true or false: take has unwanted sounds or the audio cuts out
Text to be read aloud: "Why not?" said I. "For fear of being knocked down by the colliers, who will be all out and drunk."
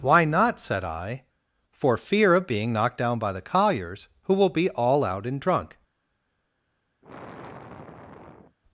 true